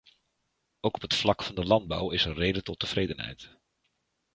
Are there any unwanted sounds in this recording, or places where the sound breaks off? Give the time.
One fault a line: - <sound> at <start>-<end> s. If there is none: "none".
none